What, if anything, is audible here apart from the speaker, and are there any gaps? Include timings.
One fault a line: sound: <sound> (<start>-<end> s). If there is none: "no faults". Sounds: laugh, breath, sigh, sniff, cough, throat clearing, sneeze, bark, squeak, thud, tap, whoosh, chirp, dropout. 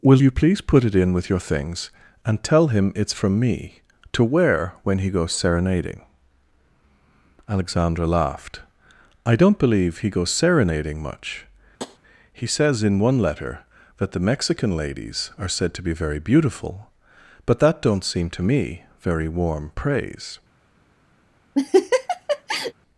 sound: tap (11.8-12.0 s)
sound: laugh (21.5-22.7 s)